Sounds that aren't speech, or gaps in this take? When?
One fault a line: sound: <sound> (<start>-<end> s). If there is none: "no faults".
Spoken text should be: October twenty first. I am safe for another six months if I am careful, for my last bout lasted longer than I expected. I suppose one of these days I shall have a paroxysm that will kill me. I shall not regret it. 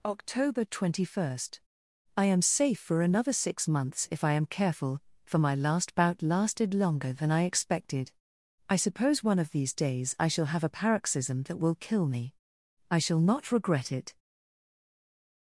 no faults